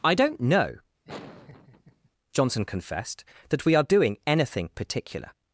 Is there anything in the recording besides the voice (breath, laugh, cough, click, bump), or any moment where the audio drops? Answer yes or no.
yes